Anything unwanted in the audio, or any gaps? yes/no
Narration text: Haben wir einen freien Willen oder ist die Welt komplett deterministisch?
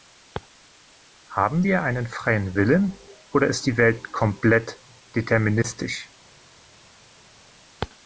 no